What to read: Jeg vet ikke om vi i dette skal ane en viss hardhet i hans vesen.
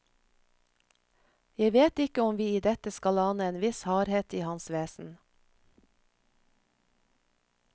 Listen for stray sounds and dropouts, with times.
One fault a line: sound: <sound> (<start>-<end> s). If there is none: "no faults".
no faults